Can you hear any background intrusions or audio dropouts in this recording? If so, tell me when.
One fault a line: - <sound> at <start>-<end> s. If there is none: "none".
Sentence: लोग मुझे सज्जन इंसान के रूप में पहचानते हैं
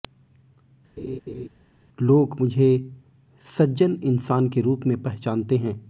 - laugh at 1.0-1.5 s